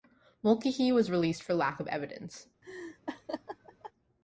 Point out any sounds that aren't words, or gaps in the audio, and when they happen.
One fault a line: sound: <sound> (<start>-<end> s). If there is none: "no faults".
sound: laugh (2.6-3.9 s)